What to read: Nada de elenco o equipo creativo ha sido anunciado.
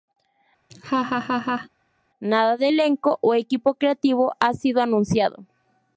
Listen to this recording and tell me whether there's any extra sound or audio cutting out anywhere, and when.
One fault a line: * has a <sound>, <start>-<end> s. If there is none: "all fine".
* has a laugh, 0.7-1.7 s